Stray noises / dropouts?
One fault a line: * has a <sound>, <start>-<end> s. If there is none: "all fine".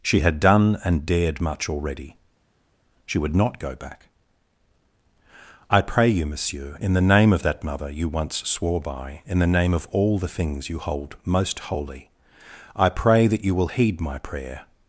all fine